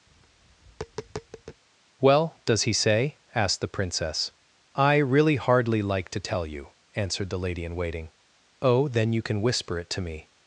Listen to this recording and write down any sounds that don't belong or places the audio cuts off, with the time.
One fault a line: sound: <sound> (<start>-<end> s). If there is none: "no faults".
sound: tap (0.1-1.6 s)